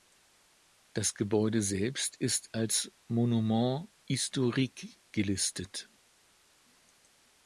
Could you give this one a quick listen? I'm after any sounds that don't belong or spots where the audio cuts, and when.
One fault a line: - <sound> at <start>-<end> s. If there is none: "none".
none